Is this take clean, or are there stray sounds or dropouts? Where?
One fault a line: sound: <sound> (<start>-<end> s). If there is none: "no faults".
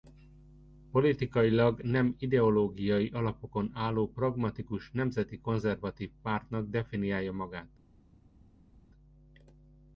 no faults